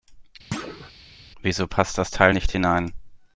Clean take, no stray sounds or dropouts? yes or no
no